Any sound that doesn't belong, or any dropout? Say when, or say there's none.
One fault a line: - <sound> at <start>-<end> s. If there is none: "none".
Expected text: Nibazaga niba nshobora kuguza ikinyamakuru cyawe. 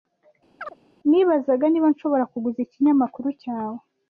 - chirp at 0.6-0.8 s